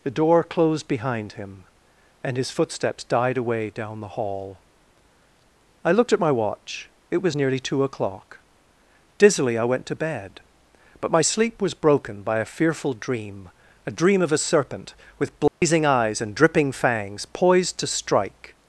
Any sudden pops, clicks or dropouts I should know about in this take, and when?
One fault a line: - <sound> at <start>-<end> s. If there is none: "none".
- dropout at 15.5-15.6 s